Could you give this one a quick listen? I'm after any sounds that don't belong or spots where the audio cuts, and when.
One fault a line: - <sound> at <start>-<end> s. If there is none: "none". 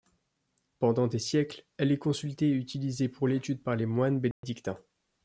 - dropout at 4.3-4.4 s